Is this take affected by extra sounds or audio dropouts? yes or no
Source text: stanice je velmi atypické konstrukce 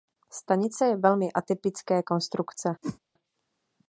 yes